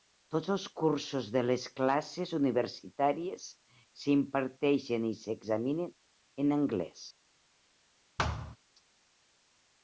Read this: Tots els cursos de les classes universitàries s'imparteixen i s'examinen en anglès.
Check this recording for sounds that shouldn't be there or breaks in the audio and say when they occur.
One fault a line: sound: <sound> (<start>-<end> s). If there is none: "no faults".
sound: thud (8.2-8.6 s)